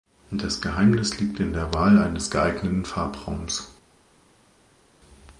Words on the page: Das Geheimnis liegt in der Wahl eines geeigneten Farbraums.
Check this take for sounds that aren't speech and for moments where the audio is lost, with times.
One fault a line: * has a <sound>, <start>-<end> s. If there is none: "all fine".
all fine